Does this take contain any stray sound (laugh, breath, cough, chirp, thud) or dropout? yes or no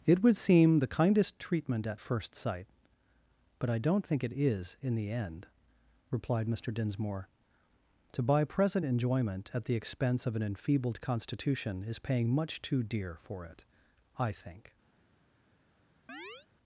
yes